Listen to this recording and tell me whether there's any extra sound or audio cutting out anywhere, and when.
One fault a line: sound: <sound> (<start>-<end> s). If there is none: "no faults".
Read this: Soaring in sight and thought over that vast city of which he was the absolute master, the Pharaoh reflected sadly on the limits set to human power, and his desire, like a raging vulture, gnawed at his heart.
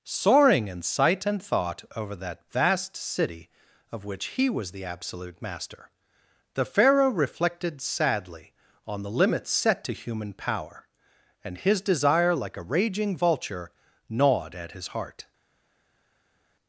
no faults